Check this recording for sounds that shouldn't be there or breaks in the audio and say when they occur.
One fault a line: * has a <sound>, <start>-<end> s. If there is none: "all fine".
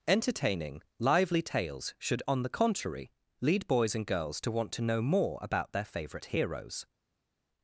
all fine